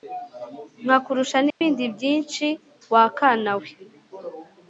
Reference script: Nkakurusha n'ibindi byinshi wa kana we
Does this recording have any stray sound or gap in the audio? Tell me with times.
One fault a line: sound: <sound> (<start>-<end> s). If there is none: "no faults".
sound: dropout (1.5-1.6 s)